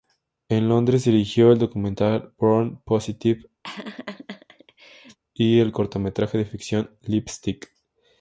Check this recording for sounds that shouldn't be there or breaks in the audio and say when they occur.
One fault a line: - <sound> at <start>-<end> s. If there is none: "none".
- laugh at 3.6-5.2 s